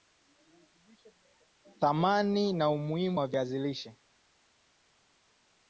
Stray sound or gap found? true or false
false